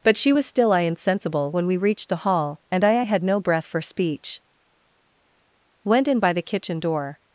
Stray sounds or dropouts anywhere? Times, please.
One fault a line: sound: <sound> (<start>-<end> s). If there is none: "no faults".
no faults